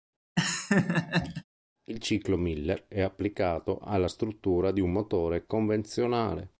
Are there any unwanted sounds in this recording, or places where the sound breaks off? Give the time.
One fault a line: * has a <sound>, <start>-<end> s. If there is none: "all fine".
* has a laugh, 0.4-1.4 s